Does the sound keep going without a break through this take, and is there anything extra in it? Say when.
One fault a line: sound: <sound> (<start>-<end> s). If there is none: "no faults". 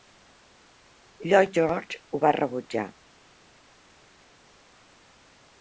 no faults